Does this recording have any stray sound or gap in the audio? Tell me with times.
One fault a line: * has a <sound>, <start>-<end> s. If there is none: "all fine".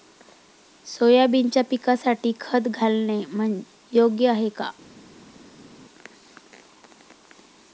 all fine